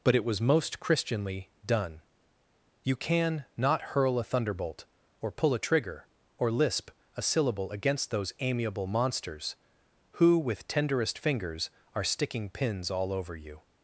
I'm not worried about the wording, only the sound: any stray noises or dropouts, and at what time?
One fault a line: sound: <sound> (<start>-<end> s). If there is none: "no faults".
no faults